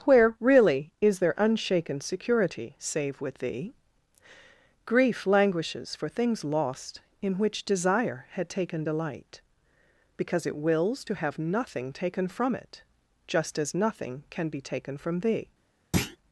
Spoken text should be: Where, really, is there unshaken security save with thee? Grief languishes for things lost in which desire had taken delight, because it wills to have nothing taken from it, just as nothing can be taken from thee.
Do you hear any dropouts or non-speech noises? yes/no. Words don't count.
yes